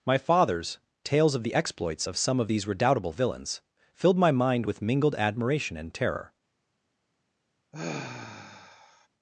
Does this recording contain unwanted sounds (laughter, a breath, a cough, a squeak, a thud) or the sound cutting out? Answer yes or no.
yes